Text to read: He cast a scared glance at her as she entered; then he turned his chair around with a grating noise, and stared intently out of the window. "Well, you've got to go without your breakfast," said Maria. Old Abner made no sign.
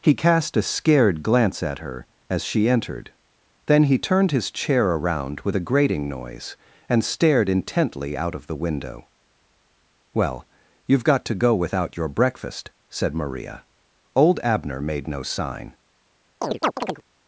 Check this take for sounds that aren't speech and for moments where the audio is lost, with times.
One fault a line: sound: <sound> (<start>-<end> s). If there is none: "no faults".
sound: chirp (16.4-17.0 s)